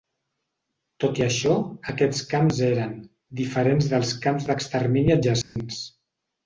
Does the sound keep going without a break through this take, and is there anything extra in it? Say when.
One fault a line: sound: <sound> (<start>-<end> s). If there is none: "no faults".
sound: dropout (5.4-5.6 s)